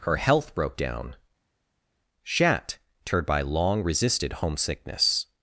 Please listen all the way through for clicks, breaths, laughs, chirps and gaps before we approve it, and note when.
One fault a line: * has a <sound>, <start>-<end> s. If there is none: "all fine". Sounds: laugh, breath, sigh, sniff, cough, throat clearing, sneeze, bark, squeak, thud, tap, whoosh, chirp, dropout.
all fine